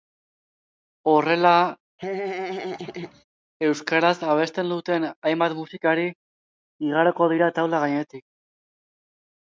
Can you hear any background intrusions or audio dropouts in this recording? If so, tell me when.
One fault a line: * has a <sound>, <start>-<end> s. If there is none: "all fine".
* has a laugh, 2.0-3.2 s